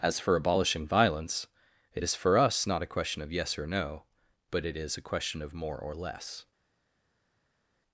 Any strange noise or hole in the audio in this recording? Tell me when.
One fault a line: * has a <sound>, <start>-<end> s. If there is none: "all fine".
all fine